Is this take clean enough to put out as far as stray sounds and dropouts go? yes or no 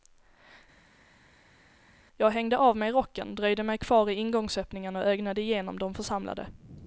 yes